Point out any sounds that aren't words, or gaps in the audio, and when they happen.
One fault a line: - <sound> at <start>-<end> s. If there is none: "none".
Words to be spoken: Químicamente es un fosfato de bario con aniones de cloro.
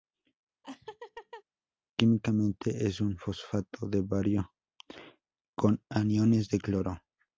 - laugh at 0.6-1.4 s